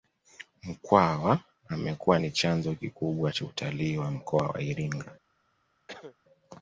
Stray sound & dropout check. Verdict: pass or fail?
fail